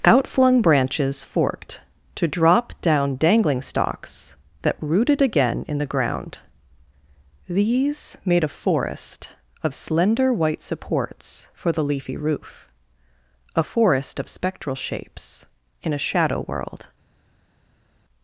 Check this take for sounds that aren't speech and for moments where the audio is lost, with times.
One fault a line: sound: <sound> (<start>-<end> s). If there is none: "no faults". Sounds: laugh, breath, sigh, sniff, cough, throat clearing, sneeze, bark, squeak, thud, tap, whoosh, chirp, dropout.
no faults